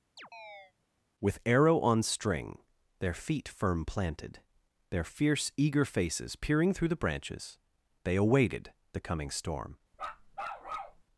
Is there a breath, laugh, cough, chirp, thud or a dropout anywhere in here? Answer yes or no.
yes